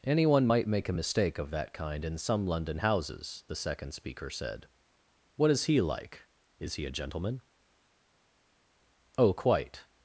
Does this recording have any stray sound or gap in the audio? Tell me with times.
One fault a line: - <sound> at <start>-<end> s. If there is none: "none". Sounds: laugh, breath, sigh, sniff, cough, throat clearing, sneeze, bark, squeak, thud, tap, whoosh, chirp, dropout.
none